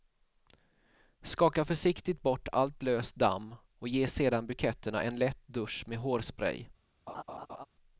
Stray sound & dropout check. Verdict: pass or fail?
fail